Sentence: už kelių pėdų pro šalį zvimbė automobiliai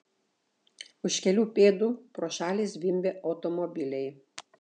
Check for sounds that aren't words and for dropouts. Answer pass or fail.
pass